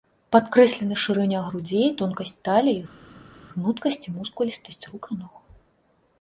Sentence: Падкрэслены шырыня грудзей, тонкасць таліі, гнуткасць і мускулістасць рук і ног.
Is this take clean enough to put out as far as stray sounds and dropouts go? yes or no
yes